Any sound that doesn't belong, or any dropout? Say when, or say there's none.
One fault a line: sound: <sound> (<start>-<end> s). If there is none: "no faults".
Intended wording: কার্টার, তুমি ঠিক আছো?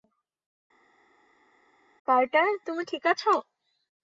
no faults